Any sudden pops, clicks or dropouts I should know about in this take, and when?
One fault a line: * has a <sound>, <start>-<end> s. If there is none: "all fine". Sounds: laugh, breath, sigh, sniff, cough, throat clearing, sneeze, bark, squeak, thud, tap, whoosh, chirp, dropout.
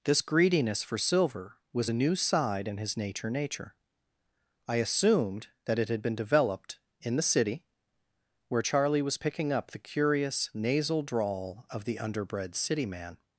all fine